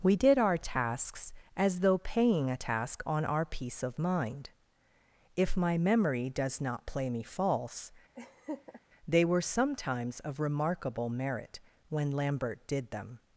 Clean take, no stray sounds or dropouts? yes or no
no